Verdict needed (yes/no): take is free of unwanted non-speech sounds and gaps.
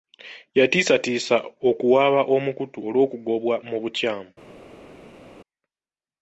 yes